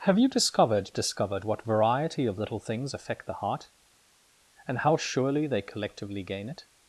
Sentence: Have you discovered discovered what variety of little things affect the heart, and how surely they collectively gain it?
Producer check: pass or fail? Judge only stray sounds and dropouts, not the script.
pass